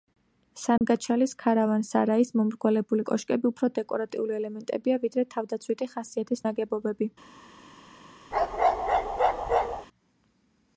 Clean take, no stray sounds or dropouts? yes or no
no